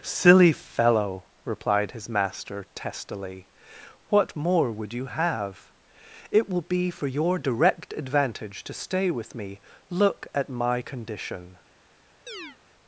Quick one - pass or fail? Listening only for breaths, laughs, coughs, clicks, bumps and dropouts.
fail